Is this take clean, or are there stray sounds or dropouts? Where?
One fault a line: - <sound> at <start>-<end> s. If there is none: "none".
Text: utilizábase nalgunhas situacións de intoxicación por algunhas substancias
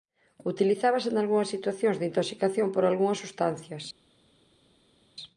none